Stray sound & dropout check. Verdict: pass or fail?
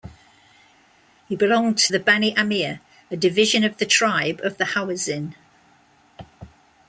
pass